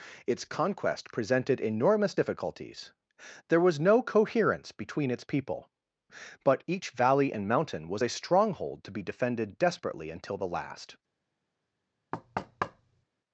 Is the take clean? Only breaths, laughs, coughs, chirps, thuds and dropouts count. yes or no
no